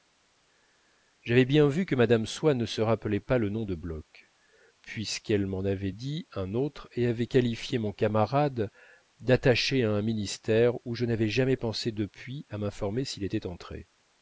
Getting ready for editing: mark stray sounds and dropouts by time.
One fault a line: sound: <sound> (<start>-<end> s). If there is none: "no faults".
no faults